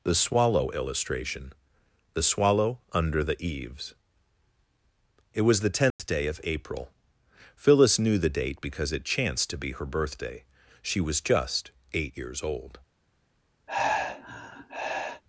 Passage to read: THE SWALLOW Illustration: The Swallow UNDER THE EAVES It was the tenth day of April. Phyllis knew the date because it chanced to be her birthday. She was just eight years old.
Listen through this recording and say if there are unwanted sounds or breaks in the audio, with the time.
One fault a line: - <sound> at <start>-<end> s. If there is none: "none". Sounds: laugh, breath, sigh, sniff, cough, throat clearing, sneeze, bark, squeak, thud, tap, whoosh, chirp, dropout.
- dropout at 5.9-6.0 s
- sigh at 13.7-15.2 s